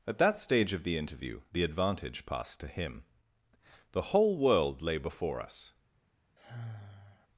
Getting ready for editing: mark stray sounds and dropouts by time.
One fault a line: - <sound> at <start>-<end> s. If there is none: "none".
- sigh at 6.4-7.3 s